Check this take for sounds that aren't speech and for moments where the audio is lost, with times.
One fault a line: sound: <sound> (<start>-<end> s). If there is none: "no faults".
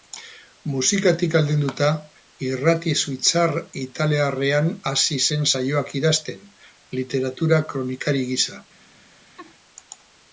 sound: laugh (9.4-9.5 s)